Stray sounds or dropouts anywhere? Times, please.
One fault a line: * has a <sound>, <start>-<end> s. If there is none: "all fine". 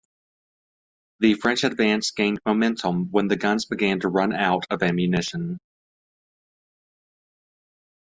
all fine